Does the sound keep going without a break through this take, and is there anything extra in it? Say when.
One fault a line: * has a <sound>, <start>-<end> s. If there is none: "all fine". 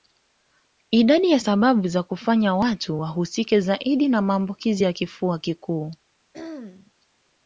* has a throat clearing, 6.3-6.9 s